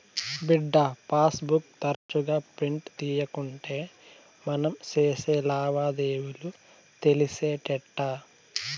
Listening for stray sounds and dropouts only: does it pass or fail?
fail